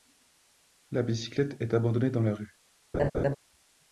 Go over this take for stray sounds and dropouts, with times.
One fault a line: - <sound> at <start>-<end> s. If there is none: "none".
- laugh at 2.9-3.4 s